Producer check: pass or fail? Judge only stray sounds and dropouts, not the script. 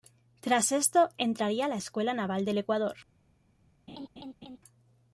fail